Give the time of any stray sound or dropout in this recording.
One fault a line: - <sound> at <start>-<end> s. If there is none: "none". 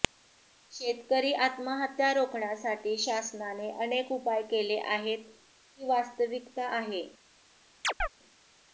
- chirp at 7.8-8.1 s